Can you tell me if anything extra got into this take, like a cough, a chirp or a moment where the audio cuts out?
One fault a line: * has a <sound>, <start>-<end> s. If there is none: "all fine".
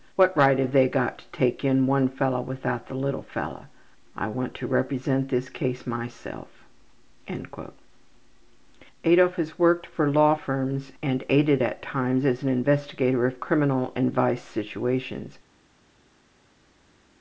all fine